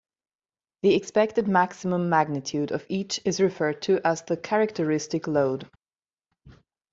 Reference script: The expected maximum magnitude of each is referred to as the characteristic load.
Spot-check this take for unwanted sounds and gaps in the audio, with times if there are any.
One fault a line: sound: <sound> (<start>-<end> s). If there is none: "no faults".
no faults